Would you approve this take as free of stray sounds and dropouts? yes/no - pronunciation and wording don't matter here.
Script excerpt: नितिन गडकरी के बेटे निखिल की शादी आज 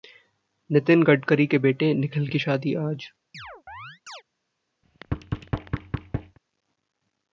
no